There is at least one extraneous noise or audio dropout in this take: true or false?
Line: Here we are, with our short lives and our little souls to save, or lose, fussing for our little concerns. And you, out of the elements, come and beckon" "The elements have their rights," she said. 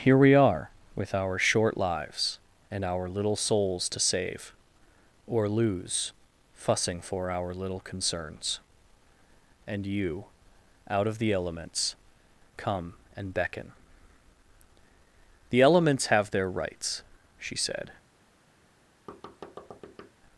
true